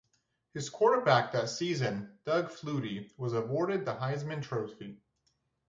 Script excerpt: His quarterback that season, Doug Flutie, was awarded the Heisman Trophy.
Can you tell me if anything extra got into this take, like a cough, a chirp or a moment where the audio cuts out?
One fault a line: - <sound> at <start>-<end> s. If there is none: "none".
none